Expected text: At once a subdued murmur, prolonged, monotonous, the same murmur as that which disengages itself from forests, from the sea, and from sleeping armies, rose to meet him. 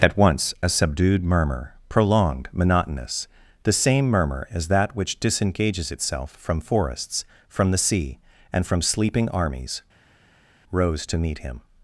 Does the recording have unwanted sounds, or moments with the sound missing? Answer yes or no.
no